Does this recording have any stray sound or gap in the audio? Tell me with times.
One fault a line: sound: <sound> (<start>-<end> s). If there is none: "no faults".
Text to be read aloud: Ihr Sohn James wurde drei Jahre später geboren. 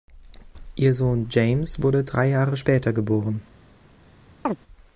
sound: chirp (4.5-4.6 s)